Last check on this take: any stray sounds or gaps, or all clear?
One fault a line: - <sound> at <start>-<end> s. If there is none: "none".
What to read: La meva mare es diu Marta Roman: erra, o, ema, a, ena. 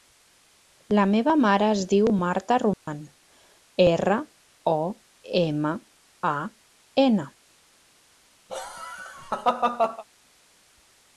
- dropout at 2.7-2.9 s
- laugh at 8.5-10.0 s